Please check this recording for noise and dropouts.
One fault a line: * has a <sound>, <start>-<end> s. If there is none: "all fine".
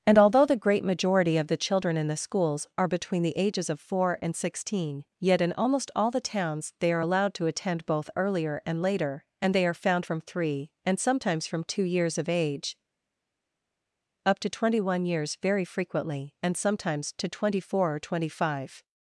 all fine